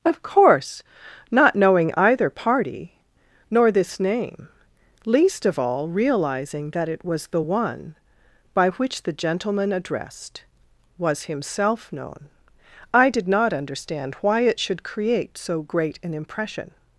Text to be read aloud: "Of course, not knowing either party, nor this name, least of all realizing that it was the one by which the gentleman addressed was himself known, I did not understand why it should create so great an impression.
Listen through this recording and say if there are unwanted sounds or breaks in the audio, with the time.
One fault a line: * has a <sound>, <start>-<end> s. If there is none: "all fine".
all fine